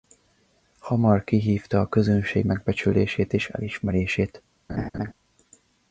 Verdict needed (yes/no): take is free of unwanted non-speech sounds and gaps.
no